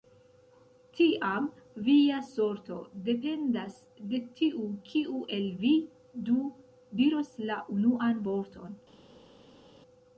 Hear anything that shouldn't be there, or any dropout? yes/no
no